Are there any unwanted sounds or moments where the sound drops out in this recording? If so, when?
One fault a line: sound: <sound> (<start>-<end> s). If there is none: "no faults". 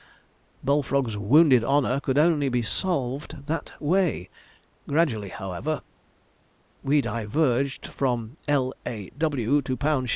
no faults